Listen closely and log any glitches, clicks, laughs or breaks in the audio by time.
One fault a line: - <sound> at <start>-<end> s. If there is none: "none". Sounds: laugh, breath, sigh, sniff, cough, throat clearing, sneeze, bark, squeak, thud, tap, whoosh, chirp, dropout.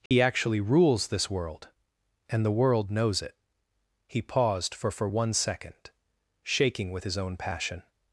- dropout at 0.1-0.1 s